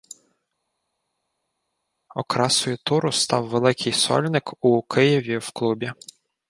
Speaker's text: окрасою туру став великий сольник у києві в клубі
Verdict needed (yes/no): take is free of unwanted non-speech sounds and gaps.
yes